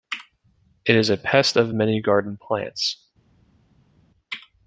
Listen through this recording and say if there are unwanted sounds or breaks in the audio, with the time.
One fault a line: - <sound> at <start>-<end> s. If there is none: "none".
none